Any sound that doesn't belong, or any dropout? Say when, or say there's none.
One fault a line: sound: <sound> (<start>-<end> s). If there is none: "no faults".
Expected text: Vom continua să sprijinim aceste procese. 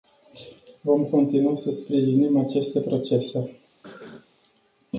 sound: cough (3.8-4.3 s)